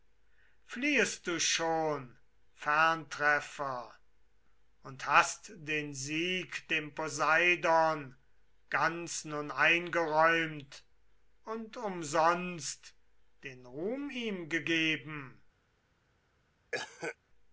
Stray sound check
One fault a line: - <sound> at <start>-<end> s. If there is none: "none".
- cough at 16.7-17.2 s